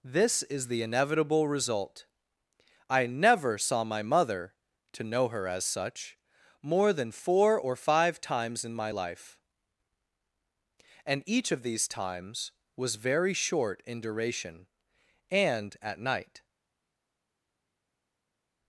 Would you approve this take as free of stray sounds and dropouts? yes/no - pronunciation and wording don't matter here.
yes